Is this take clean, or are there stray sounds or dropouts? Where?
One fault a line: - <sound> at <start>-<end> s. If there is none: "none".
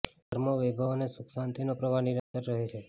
- dropout at 0.2-0.3 s
- dropout at 2.2-2.3 s